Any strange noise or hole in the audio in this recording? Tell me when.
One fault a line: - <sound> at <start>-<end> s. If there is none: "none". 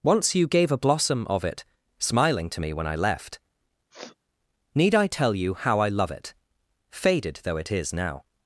- sniff at 3.9-4.2 s